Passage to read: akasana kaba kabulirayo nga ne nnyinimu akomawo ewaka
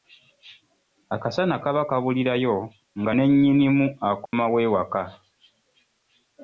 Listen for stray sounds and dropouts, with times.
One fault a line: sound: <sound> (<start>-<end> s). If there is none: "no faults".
sound: dropout (4.3-4.3 s)